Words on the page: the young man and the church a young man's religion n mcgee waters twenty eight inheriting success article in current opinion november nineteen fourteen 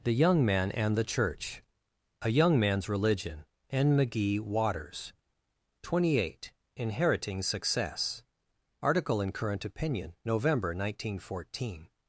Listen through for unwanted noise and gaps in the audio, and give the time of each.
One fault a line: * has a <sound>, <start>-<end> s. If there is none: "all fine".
all fine